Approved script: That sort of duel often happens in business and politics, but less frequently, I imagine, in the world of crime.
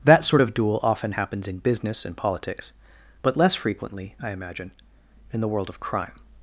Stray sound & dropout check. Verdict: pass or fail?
pass